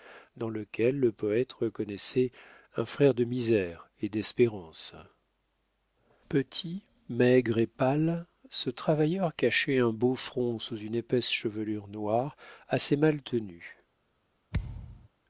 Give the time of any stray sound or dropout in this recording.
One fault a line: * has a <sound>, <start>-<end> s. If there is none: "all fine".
* has a thud, 14.5-15.1 s